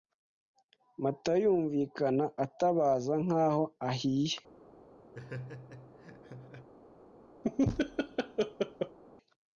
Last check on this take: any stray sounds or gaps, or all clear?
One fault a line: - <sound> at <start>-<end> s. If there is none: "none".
- laugh at 5.1-6.7 s
- laugh at 7.4-9.0 s